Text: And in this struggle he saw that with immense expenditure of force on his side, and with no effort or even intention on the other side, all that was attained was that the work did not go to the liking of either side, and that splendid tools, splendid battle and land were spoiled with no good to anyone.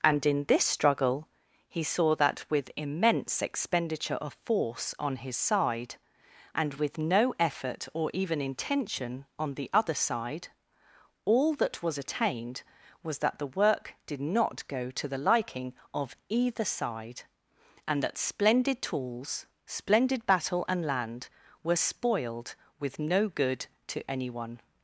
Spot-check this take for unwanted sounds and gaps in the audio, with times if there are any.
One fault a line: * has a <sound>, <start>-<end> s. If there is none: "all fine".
all fine